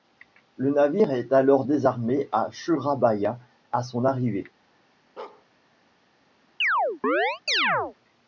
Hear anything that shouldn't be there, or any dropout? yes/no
yes